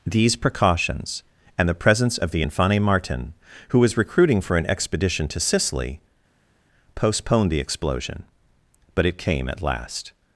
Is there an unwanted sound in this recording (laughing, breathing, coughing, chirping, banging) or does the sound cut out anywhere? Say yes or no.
no